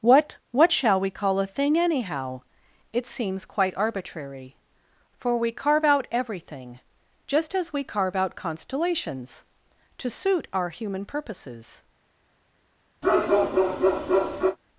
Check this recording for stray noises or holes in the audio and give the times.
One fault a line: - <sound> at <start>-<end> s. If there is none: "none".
- bark at 13.0-14.6 s